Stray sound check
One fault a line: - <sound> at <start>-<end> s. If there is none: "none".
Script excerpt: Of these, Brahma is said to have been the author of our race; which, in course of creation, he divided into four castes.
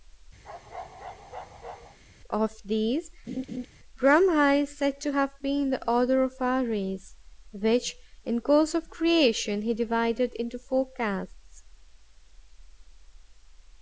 - bark at 0.4-2.0 s
- laugh at 3.3-3.7 s